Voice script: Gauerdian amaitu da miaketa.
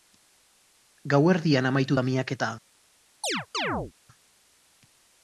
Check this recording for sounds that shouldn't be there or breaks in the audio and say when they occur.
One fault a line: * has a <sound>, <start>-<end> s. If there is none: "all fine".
* has a chirp, 3.2-3.9 s